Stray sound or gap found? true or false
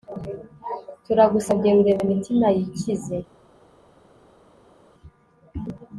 false